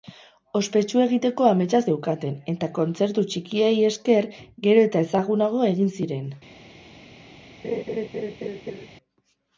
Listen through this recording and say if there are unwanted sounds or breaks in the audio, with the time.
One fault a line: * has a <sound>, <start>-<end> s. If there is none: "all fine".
* has a laugh, 7.6-8.9 s